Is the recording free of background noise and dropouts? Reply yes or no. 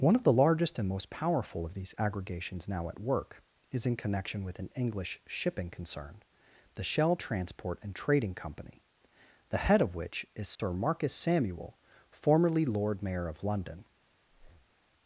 no